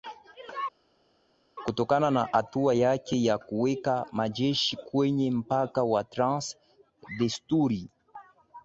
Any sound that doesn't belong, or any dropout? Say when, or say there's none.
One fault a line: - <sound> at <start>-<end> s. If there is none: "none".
none